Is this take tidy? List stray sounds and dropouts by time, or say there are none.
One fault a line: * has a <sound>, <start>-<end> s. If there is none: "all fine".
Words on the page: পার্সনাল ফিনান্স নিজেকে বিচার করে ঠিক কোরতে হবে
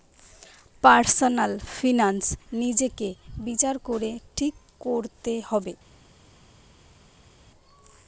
all fine